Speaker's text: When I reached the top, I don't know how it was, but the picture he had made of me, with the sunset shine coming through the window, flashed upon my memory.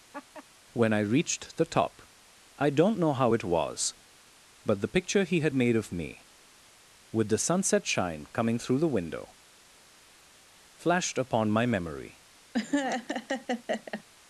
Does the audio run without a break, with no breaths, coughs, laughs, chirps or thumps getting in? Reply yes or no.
no